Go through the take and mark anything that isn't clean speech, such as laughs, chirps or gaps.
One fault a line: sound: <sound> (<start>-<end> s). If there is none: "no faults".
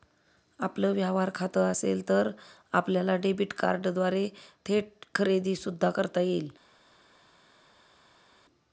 no faults